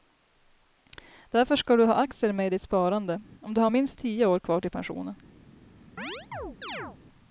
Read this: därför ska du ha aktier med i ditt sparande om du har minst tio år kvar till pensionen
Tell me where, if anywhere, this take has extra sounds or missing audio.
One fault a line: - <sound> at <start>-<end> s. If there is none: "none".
- chirp at 6.0-7.0 s